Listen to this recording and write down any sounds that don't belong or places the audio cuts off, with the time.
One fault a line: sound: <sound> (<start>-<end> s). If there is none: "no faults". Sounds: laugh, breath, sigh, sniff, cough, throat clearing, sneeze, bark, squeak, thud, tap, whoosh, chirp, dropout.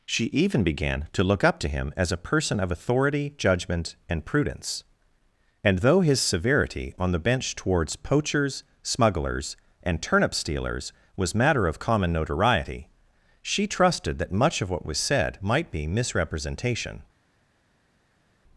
no faults